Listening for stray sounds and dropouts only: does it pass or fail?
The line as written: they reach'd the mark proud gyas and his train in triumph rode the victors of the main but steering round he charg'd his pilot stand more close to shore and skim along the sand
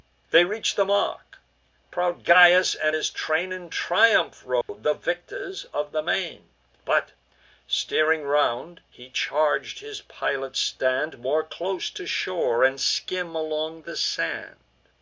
fail